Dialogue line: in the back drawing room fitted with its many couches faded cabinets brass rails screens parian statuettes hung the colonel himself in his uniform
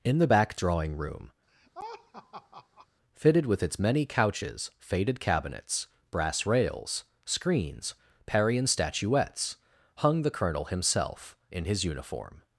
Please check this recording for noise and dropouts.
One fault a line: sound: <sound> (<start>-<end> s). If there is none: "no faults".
sound: laugh (1.5-2.9 s)